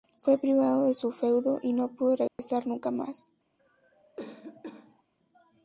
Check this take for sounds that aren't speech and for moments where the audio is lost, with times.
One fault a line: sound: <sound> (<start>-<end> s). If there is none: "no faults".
sound: dropout (2.3-2.4 s)
sound: cough (3.6-5.0 s)